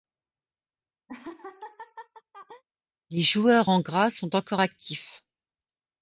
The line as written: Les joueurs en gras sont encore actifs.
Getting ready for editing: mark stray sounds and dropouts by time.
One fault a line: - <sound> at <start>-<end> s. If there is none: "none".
- laugh at 1.1-2.6 s